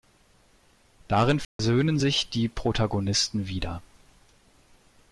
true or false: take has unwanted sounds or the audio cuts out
true